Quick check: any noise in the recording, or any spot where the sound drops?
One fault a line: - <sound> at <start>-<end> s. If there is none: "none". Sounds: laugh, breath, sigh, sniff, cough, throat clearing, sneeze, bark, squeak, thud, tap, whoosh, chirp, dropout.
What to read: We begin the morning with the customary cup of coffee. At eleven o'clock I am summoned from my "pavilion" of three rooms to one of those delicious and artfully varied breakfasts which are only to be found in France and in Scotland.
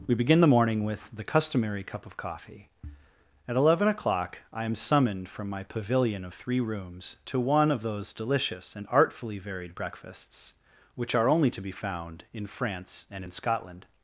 none